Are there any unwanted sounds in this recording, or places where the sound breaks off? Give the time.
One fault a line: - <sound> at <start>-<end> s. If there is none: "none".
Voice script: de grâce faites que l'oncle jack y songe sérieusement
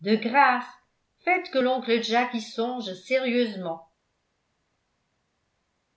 none